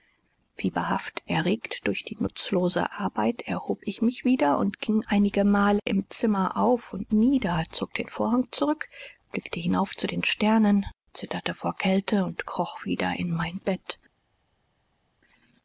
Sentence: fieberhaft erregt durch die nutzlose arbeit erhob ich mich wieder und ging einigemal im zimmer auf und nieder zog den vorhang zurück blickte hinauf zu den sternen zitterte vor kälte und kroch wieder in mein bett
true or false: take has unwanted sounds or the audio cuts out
false